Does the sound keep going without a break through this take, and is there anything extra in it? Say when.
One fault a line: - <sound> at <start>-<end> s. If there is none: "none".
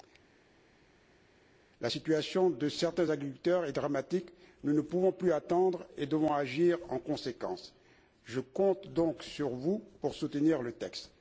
none